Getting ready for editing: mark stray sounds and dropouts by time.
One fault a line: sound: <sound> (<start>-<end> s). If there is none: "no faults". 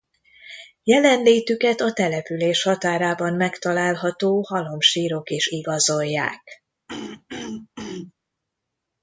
sound: throat clearing (6.9-8.1 s)